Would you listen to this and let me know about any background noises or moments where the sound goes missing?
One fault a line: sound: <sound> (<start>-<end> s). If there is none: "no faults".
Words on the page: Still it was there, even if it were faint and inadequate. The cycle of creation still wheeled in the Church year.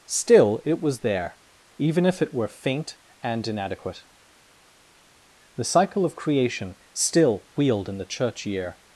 no faults